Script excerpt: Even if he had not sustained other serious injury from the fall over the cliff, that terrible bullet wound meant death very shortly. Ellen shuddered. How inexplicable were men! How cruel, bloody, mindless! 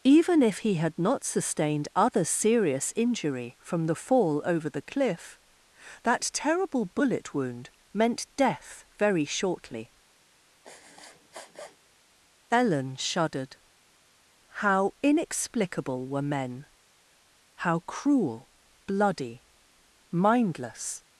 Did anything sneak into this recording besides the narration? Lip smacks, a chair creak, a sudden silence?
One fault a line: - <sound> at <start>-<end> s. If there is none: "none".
- sniff at 10.6-11.8 s